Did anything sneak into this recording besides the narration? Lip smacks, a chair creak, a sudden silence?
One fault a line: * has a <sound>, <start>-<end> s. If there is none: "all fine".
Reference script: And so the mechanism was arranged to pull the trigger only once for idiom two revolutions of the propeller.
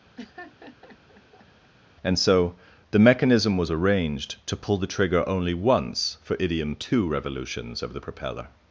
* has a laugh, 0.2-1.7 s